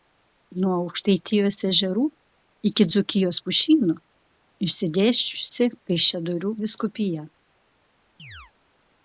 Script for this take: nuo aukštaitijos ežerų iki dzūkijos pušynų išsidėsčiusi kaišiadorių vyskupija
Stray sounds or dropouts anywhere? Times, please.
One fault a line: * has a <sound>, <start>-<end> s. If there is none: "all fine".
* has a chirp, 8.2-8.5 s